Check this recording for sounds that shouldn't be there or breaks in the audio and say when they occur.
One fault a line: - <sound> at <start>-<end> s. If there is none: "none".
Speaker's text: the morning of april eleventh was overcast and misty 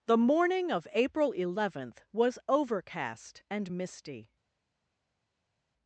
none